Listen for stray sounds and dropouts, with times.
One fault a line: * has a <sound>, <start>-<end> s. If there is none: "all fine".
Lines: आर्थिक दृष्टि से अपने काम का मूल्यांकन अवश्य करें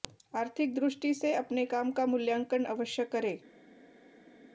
all fine